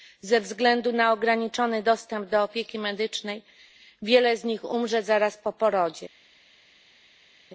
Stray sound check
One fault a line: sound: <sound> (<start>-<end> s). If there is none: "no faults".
no faults